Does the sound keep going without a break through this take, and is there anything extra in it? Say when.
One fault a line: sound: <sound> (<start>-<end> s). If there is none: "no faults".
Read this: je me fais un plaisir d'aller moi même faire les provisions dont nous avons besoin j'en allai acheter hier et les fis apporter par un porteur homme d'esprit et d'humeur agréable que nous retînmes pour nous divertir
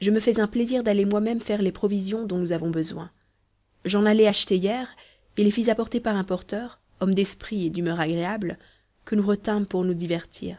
no faults